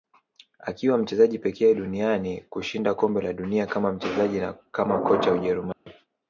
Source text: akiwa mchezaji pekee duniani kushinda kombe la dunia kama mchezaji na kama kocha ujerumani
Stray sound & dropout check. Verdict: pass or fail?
fail